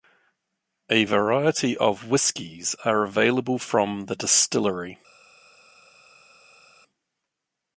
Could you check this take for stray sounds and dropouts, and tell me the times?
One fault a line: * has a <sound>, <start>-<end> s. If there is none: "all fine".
all fine